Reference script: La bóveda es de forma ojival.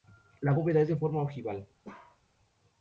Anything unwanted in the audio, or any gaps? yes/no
yes